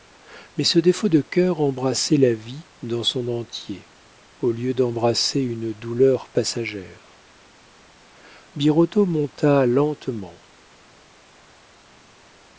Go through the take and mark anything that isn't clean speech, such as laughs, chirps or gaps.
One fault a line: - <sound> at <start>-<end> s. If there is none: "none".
none